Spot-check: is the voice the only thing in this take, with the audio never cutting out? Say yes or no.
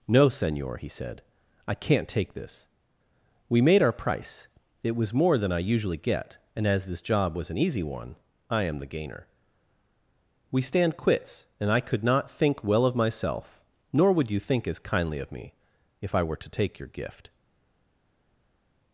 yes